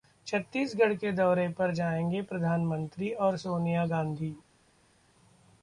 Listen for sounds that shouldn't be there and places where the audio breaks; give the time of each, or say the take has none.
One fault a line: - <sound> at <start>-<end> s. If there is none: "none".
none